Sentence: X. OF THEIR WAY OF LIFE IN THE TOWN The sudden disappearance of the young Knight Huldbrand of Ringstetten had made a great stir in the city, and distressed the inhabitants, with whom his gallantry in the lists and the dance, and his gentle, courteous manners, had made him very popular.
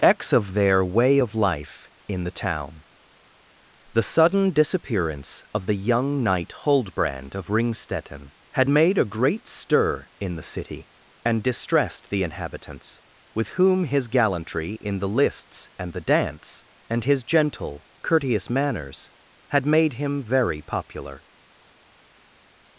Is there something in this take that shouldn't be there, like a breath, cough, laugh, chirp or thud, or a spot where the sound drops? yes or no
no